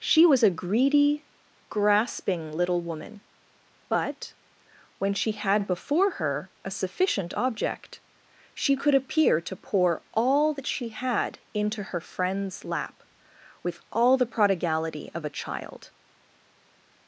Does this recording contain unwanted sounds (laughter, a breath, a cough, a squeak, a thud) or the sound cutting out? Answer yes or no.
no